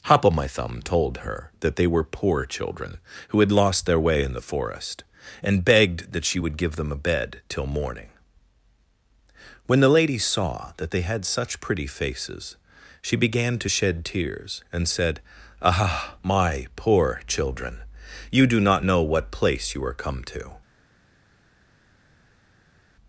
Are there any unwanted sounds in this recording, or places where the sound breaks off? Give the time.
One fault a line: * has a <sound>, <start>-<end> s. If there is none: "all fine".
all fine